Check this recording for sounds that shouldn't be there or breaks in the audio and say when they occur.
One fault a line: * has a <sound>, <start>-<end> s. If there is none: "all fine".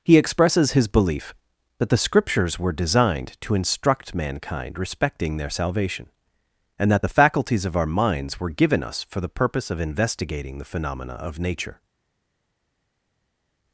all fine